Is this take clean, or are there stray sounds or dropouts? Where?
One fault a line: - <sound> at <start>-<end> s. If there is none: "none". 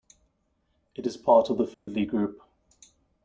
- dropout at 1.7-1.9 s